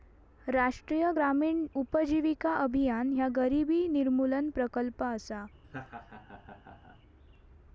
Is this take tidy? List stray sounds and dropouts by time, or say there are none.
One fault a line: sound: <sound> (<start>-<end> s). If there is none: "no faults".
sound: laugh (5.6-7.0 s)